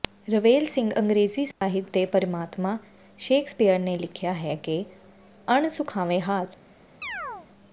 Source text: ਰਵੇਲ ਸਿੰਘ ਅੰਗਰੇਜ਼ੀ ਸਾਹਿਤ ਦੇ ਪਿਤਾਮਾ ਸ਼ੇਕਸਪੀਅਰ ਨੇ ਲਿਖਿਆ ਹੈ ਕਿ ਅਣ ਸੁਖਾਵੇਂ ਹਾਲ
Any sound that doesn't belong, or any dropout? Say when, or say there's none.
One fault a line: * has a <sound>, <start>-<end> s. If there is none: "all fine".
* has a dropout, 1.5-1.6 s
* has a chirp, 7.0-7.5 s